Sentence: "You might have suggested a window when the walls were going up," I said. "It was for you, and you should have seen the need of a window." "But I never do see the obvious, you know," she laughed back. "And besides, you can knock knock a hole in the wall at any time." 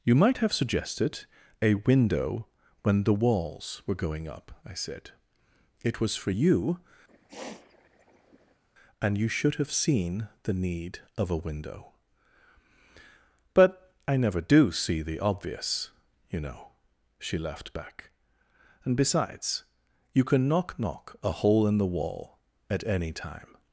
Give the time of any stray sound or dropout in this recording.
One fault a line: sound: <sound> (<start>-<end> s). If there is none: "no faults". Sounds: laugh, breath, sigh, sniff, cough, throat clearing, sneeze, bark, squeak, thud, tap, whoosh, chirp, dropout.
sound: sniff (7.1-8.6 s)